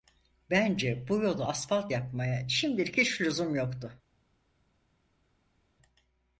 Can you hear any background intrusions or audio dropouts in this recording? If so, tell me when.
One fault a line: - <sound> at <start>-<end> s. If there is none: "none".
none